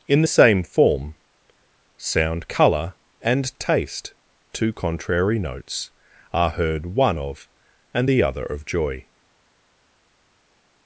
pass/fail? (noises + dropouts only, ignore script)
pass